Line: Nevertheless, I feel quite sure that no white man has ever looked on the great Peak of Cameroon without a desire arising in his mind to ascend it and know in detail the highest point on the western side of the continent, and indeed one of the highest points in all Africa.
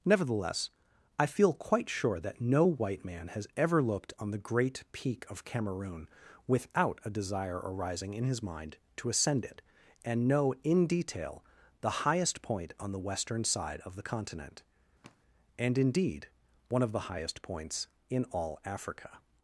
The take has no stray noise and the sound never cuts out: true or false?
false